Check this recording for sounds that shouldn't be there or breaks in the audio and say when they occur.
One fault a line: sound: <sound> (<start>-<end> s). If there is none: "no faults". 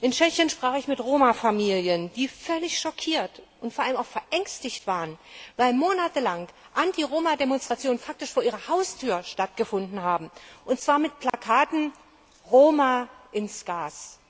sound: dropout (11.3-11.3 s)